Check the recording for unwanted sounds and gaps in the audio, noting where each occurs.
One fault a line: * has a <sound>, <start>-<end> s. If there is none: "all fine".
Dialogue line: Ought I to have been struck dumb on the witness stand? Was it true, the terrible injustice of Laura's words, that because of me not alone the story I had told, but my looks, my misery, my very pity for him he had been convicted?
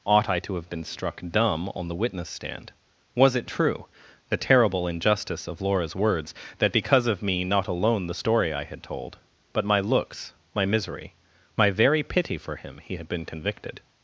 all fine